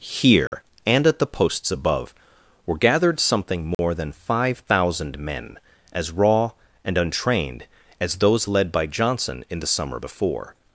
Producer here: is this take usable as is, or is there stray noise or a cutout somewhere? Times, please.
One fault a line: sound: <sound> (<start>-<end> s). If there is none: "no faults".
sound: dropout (0.5-0.5 s)
sound: dropout (3.7-3.8 s)